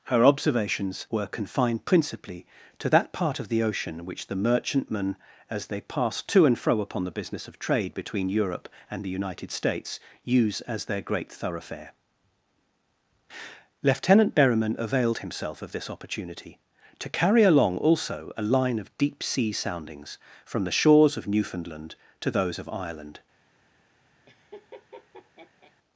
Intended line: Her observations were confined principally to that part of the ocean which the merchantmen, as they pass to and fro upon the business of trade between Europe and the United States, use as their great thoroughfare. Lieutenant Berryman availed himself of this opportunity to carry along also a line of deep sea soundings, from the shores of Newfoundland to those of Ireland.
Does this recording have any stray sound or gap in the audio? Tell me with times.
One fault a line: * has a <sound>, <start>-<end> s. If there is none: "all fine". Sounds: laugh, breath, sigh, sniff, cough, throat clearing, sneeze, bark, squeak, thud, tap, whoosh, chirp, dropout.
* has a laugh, 24.3-25.7 s